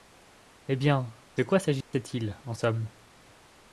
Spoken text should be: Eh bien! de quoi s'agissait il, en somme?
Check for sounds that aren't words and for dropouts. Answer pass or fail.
fail